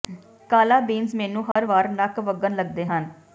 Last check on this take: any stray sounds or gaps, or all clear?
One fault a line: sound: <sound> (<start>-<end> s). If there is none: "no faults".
sound: dropout (1.5-1.6 s)